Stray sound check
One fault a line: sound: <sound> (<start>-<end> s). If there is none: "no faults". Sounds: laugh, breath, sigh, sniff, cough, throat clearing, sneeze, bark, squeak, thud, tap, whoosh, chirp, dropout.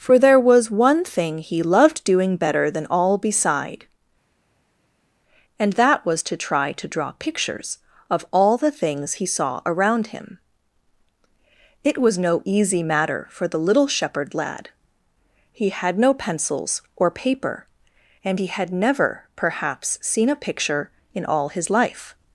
no faults